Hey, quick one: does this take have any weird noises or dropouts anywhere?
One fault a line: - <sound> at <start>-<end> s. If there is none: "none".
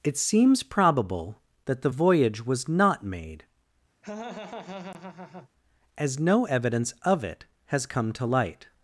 - laugh at 4.0-5.5 s